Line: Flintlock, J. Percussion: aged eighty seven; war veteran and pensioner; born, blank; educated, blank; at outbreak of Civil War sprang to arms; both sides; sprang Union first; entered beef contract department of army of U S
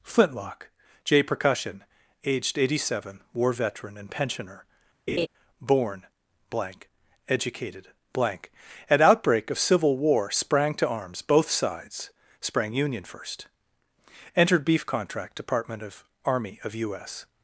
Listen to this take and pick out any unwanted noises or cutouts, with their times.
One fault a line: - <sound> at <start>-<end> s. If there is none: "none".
- laugh at 5.1-5.3 s